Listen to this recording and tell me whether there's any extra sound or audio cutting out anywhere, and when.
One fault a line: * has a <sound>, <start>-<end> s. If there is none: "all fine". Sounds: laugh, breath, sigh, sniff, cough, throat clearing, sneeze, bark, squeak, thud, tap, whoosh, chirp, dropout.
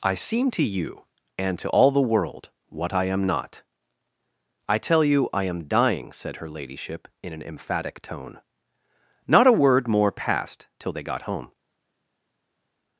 all fine